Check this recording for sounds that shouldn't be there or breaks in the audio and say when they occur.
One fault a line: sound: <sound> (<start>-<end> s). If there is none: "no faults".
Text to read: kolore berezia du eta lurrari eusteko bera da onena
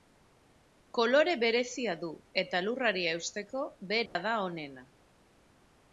sound: dropout (4.1-4.2 s)